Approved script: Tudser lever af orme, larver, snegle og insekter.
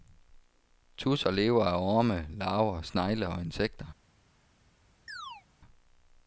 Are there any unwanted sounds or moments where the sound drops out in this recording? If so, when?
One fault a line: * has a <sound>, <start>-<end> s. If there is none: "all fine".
* has a chirp, 5.1-5.4 s